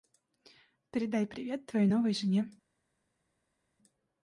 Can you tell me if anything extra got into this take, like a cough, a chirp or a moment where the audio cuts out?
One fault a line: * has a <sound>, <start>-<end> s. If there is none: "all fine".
all fine